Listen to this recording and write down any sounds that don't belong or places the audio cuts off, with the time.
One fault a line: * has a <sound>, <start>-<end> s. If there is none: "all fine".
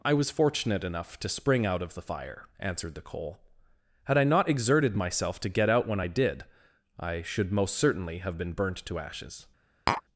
* has a tap, 9.9-10.0 s